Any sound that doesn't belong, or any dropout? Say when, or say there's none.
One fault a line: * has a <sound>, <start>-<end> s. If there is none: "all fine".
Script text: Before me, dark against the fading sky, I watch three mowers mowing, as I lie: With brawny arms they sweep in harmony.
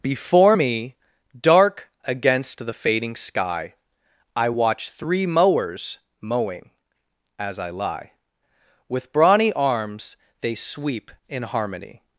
all fine